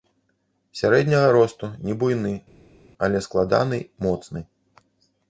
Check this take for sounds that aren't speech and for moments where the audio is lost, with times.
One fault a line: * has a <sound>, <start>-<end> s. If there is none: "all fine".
all fine